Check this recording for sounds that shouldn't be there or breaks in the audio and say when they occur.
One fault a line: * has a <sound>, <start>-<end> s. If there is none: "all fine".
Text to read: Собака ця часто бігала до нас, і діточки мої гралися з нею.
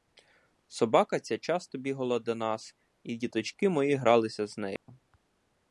* has a dropout, 4.8-4.9 s